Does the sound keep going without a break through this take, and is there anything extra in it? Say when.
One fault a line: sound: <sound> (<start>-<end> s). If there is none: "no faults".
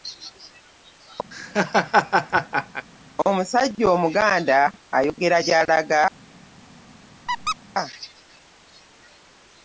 sound: laugh (1.3-2.9 s)
sound: squeak (7.3-7.6 s)